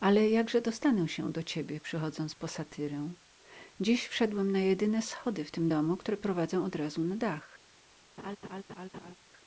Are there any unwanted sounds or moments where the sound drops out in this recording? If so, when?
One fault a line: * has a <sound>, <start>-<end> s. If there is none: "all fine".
* has a laugh, 8.2-9.1 s